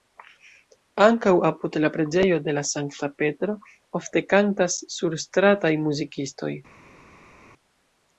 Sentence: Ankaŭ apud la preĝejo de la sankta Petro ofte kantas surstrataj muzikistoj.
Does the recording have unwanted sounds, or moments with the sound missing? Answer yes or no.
no